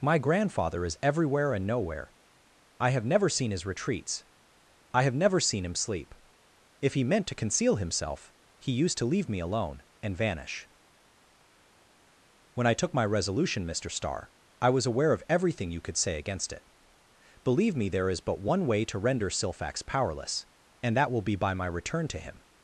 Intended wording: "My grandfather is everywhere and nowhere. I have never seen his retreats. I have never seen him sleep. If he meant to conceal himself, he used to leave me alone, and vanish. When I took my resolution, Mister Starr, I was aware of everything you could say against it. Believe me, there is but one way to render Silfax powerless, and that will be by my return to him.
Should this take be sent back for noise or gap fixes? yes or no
no